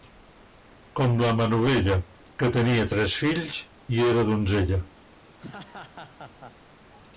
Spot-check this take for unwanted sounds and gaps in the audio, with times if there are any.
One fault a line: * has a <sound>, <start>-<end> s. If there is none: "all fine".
* has a laugh, 5.4-6.5 s